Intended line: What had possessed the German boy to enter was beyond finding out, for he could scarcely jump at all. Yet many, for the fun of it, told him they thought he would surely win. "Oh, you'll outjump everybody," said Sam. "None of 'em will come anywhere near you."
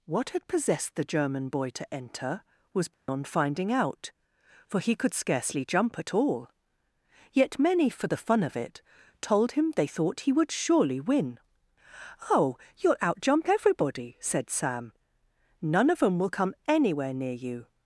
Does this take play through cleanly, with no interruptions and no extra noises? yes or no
no